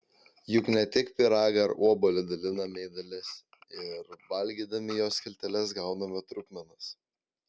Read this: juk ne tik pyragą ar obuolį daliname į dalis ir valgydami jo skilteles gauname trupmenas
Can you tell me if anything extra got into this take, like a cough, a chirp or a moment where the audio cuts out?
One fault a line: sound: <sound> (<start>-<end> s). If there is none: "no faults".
no faults